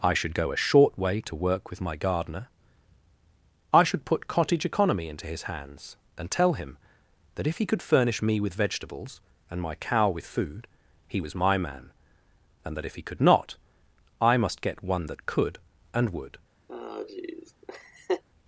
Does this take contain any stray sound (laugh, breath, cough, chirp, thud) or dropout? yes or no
yes